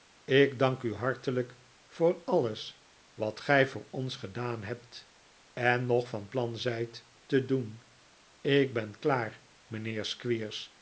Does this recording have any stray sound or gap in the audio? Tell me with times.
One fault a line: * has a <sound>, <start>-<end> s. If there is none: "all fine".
all fine